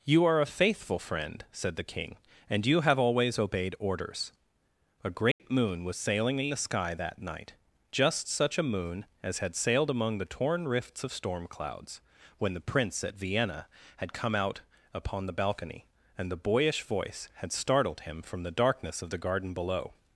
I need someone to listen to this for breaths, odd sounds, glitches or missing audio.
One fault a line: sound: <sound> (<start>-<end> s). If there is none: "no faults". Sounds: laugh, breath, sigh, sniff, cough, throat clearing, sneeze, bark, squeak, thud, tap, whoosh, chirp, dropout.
sound: dropout (5.3-5.4 s)